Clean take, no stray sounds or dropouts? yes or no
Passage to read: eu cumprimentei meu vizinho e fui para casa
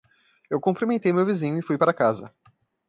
yes